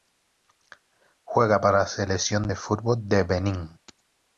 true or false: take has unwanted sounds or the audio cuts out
false